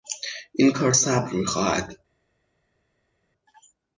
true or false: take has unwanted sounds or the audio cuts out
false